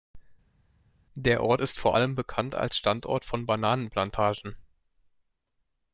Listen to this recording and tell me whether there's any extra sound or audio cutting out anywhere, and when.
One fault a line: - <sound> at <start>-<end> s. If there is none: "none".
none